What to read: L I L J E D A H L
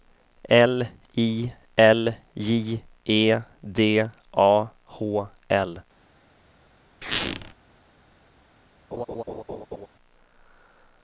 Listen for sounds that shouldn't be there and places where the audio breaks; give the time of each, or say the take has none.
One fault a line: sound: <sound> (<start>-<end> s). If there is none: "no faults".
sound: squeak (7.0-7.5 s)
sound: laugh (8.9-9.9 s)